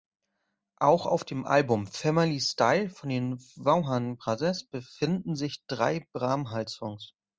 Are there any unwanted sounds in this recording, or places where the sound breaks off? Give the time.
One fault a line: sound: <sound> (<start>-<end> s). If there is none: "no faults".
no faults